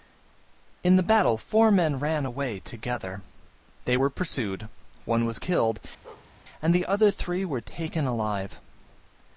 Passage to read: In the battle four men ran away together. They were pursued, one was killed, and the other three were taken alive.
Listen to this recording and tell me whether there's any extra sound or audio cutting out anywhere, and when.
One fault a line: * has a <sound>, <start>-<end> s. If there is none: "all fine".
* has a bark, 6.0-6.3 s